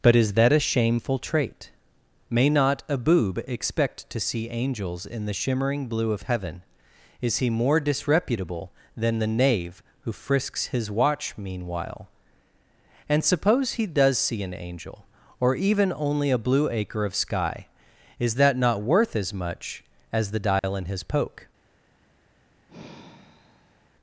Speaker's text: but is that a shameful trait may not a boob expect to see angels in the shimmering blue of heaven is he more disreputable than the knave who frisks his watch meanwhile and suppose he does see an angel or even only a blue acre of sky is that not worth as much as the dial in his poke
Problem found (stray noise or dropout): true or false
true